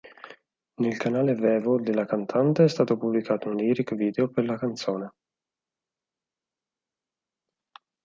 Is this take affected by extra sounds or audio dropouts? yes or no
no